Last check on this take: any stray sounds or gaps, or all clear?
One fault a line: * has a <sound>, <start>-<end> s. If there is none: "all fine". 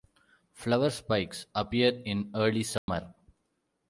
* has a dropout, 2.8-2.9 s